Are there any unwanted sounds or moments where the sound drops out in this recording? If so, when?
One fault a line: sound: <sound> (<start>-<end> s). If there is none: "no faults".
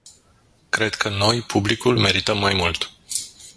no faults